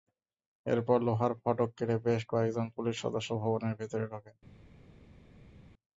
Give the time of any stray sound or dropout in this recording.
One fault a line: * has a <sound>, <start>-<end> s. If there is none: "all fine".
all fine